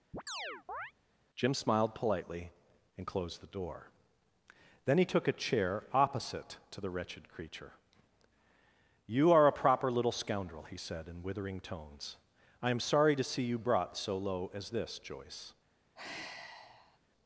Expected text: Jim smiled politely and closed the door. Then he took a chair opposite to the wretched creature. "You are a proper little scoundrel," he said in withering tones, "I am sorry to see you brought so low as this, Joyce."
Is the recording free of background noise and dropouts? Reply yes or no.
no